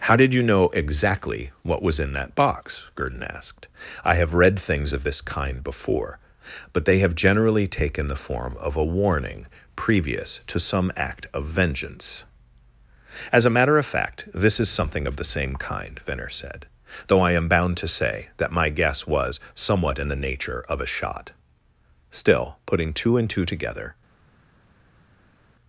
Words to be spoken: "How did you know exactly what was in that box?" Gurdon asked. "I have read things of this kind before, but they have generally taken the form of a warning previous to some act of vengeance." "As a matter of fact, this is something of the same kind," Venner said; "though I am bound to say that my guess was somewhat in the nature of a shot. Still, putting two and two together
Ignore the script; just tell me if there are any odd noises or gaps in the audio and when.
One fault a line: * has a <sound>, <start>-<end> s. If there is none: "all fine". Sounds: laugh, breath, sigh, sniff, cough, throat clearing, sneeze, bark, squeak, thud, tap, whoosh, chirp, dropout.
all fine